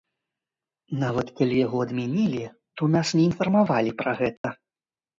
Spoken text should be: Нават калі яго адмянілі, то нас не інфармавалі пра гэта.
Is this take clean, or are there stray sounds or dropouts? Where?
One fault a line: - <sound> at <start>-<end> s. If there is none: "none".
- dropout at 4.4-4.4 s